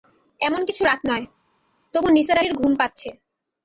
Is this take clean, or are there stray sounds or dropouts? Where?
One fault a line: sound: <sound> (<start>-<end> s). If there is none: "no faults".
no faults